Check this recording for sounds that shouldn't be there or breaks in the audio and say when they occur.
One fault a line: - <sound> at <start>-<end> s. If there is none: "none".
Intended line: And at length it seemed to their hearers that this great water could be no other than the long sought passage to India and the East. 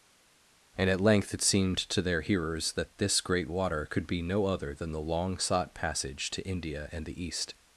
none